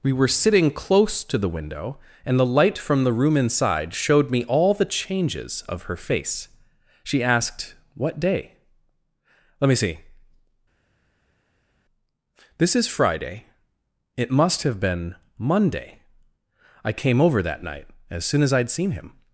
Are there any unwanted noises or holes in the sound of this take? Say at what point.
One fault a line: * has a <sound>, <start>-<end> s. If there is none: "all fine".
all fine